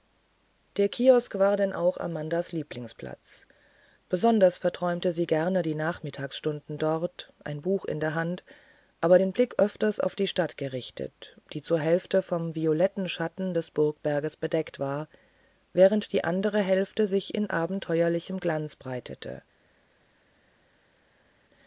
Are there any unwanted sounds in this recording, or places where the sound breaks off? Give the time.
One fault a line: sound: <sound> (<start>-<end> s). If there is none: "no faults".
no faults